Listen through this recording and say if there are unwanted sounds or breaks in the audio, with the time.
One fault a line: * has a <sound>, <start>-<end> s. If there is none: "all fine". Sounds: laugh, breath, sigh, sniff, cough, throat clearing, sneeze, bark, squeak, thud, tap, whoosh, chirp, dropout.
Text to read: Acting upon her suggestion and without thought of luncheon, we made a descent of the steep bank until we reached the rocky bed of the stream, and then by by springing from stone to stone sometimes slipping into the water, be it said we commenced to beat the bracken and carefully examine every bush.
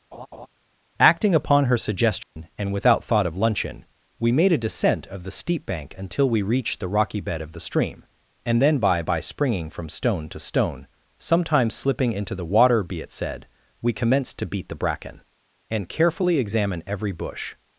* has a laugh, 0.1-0.5 s
* has a dropout, 2.2-2.4 s